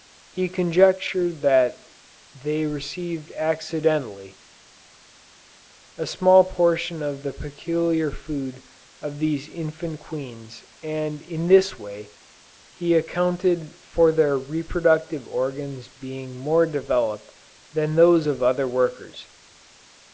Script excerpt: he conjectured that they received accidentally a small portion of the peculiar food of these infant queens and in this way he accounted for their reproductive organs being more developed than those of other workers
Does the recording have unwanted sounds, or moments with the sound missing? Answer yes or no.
no